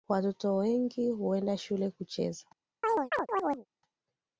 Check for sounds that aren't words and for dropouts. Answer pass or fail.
fail